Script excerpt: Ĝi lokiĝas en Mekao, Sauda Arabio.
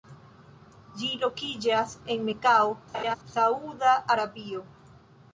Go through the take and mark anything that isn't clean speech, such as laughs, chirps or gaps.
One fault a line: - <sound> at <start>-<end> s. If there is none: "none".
- laugh at 2.9-3.2 s